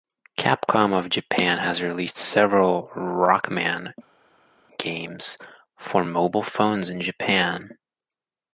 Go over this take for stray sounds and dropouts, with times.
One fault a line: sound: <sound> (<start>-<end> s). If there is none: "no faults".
no faults